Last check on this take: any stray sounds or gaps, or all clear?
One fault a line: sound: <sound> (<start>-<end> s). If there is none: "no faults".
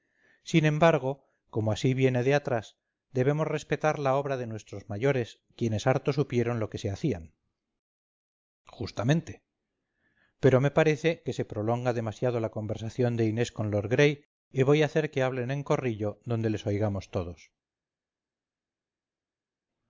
no faults